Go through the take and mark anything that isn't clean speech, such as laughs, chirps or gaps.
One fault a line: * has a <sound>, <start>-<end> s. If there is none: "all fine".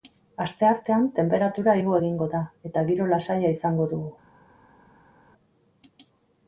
all fine